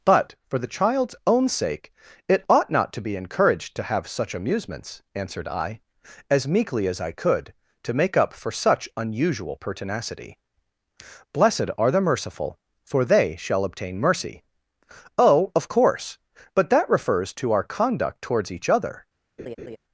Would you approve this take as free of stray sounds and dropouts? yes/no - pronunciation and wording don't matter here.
no